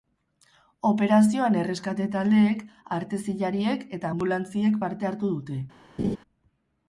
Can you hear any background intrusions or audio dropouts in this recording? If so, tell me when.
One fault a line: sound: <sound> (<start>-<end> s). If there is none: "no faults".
sound: laugh (6.0-6.2 s)